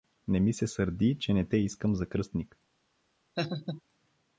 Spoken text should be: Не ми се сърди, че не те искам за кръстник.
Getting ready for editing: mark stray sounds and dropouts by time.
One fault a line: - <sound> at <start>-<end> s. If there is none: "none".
- laugh at 3.4-3.8 s